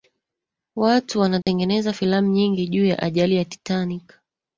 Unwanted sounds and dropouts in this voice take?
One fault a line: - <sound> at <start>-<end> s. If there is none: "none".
- dropout at 1.4-1.5 s